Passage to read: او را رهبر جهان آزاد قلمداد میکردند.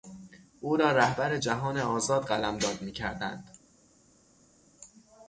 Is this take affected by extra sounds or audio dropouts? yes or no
no